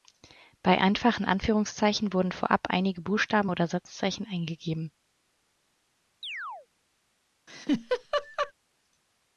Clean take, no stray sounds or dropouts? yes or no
no